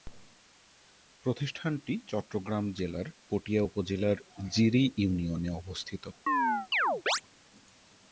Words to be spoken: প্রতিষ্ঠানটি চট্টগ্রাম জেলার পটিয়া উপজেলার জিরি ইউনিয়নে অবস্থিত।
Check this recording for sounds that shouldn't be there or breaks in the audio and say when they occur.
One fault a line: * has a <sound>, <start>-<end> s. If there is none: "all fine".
* has a chirp, 6.3-7.2 s